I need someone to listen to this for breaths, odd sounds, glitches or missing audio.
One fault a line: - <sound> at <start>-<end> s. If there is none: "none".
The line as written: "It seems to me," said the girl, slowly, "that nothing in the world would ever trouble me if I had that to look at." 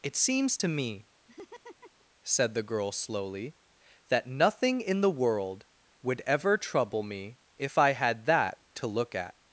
- laugh at 1.3-2.0 s